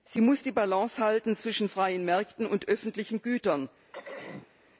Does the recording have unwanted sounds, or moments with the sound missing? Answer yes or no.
yes